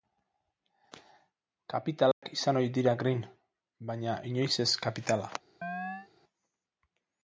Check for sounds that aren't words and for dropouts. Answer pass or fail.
fail